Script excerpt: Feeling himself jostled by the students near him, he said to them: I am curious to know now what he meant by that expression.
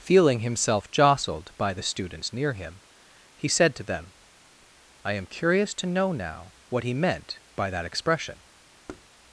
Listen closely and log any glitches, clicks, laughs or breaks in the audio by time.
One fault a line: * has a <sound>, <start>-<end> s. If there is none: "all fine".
* has a thud, 8.9-9.1 s